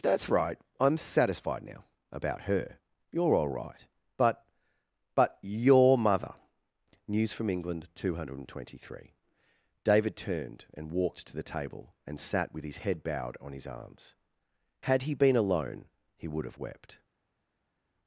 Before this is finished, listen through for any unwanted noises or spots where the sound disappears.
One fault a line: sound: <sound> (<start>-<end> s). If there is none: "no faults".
no faults